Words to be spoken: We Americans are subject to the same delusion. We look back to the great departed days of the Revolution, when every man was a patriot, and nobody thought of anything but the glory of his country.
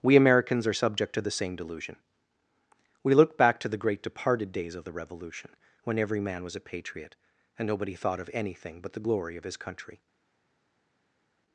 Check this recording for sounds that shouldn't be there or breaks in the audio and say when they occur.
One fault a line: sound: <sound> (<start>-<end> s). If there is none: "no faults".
no faults